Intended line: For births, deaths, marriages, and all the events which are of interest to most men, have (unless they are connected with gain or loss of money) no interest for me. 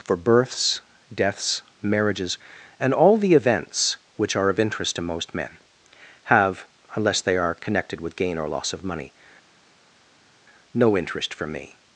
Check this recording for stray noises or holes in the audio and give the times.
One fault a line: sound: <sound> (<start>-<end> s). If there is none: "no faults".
no faults